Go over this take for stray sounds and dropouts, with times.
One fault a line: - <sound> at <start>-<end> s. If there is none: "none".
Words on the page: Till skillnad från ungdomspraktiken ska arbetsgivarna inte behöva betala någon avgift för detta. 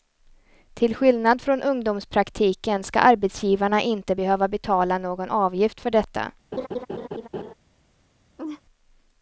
- laugh at 6.5-7.5 s
- laugh at 8.4-8.6 s